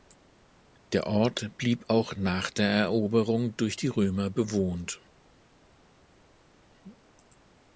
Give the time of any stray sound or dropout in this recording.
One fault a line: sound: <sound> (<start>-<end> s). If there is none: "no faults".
no faults